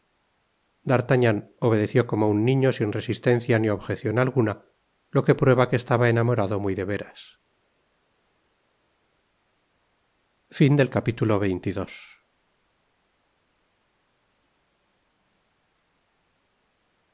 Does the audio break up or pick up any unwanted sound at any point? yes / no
no